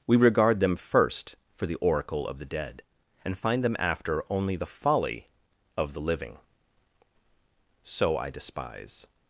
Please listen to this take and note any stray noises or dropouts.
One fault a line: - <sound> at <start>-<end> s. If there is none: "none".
none